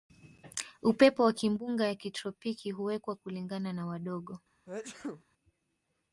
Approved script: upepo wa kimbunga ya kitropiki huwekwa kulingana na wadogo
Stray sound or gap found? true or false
true